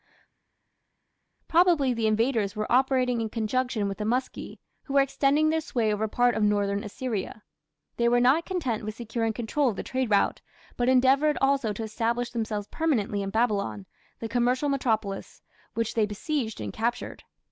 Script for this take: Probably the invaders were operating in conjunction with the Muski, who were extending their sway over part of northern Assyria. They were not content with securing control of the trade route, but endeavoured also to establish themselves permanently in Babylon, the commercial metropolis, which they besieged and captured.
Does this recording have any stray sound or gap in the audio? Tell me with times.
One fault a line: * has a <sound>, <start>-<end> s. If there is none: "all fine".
all fine